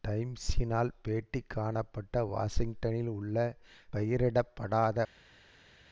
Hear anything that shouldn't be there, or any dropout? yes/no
no